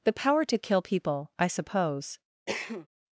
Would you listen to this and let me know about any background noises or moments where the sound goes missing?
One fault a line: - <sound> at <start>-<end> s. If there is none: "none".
- cough at 2.5-2.9 s